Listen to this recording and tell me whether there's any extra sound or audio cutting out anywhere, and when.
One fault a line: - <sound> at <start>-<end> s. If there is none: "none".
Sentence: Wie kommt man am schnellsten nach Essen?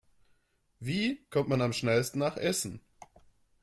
none